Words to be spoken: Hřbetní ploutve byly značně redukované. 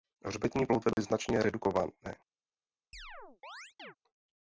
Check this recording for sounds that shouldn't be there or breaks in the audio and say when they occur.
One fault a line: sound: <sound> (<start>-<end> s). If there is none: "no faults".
sound: dropout (0.9-1.0 s)
sound: chirp (2.9-4.0 s)